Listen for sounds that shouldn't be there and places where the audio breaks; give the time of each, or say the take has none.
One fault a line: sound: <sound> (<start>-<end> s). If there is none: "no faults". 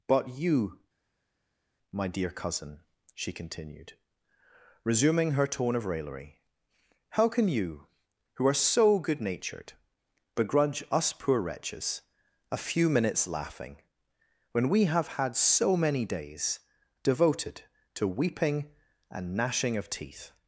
no faults